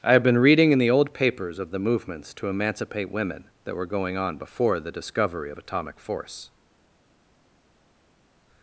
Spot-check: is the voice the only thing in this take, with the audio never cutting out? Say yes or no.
yes